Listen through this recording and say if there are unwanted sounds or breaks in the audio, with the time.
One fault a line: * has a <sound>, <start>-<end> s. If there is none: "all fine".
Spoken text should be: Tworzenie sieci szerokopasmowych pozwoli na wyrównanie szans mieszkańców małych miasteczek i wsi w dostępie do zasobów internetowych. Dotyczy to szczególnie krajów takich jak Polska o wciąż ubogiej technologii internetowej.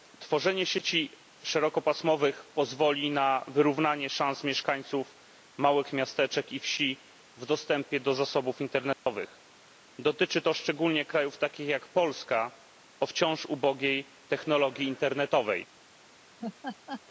* has a dropout, 8.9-9.1 s
* has a laugh, 16.4-17.0 s